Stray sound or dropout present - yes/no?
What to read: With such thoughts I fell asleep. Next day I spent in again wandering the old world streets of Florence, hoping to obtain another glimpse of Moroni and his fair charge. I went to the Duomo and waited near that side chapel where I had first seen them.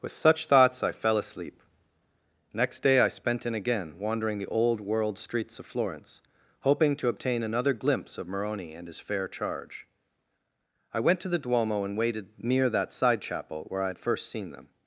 no